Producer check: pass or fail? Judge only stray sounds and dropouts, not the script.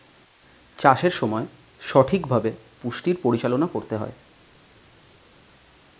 pass